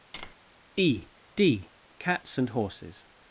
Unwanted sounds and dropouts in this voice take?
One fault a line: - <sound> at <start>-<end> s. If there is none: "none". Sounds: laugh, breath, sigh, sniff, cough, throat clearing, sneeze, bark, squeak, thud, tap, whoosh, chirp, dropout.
- tap at 0.1-0.4 s